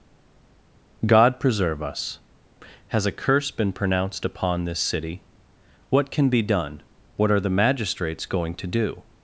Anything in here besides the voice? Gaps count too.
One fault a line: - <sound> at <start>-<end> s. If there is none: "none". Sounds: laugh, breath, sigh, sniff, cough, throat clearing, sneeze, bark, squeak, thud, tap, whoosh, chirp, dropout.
none